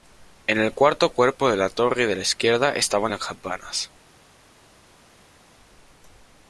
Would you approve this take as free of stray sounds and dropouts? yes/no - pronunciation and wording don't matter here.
yes